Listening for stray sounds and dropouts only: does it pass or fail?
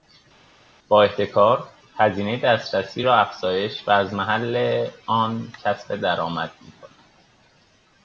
pass